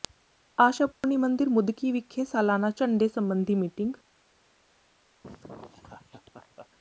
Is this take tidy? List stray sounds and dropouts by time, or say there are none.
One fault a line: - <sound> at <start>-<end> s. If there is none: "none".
- dropout at 0.9-1.0 s
- laugh at 5.2-6.7 s